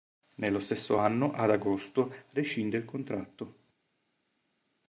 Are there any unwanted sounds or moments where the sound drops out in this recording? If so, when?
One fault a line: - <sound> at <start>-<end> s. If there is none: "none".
none